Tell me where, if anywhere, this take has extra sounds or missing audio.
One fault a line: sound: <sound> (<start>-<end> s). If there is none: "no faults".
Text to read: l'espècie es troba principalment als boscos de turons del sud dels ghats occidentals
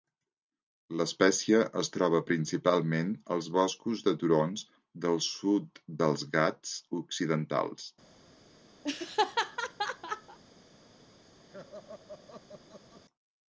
sound: laugh (8.8-10.4 s)
sound: laugh (11.5-13.0 s)